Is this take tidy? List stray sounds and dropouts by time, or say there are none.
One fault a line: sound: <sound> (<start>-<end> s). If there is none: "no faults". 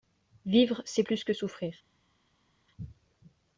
no faults